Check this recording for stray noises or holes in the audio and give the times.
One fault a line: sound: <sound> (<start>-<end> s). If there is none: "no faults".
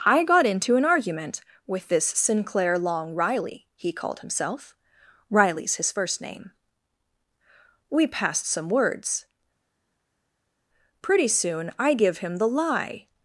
no faults